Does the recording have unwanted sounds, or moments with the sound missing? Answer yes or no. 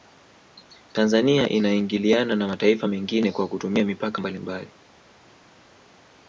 no